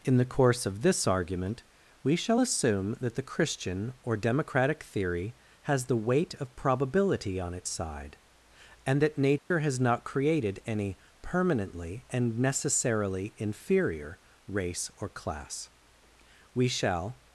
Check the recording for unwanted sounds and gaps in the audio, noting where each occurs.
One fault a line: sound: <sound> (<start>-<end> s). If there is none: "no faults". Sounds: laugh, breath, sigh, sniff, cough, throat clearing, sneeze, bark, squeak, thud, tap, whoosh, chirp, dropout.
sound: dropout (9.4-9.5 s)